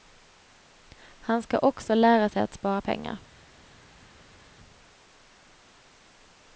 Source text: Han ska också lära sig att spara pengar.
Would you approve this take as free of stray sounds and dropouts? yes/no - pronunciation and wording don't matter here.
yes